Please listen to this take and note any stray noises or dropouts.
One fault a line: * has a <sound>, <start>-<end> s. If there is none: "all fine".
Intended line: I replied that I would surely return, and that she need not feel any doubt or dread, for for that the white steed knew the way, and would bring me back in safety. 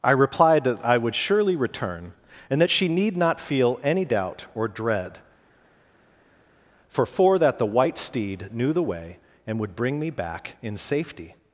all fine